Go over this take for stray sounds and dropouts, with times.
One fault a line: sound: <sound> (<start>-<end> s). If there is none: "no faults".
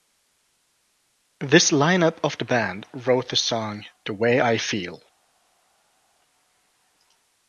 no faults